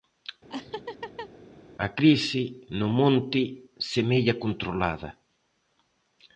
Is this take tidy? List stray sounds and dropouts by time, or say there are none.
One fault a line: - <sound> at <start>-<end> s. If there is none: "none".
- laugh at 0.5-1.3 s